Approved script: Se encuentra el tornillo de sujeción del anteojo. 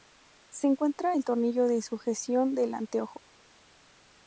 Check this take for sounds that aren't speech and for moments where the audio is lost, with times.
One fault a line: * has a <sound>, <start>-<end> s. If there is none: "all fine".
all fine